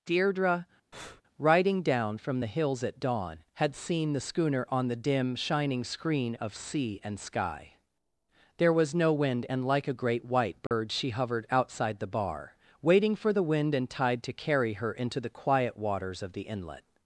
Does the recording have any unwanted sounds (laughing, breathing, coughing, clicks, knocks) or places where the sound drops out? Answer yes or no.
yes